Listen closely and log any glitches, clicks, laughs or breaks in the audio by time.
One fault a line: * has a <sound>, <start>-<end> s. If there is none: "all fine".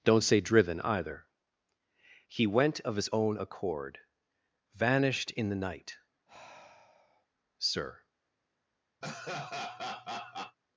* has a sigh, 6.3-7.3 s
* has a laugh, 9.0-10.6 s